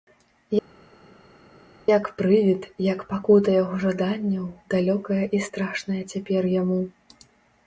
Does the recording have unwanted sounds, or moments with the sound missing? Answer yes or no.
no